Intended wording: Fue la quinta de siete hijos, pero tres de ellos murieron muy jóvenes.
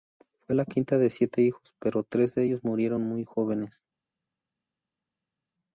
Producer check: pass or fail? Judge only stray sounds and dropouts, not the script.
pass